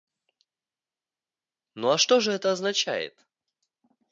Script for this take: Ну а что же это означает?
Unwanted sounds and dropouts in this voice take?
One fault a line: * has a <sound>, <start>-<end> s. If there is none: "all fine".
all fine